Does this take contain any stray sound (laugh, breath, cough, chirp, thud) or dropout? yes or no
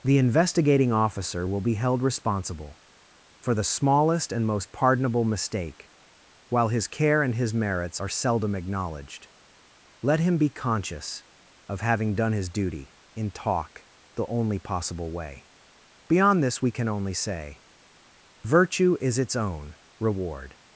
no